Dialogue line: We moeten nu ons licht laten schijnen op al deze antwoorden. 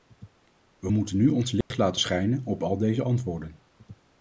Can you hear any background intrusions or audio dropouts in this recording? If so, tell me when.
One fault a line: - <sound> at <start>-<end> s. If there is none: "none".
- dropout at 1.6-1.7 s